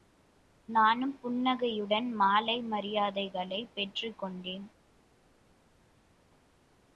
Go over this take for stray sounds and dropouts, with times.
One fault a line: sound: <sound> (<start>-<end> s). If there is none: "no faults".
no faults